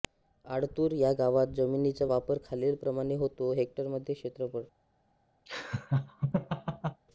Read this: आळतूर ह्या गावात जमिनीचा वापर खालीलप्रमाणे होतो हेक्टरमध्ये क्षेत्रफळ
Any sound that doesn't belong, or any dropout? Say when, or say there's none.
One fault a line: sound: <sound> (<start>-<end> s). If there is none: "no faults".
sound: laugh (5.5-7.0 s)